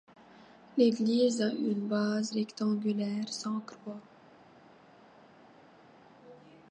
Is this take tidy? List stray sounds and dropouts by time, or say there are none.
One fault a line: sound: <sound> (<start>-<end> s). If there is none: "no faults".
no faults